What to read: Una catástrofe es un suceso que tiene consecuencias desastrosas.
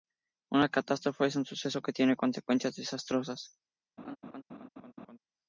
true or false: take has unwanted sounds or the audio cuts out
true